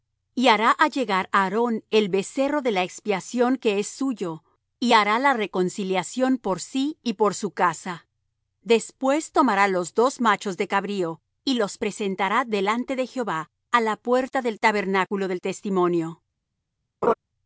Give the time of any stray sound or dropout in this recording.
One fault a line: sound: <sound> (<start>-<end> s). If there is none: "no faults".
sound: laugh (17.0-17.1 s)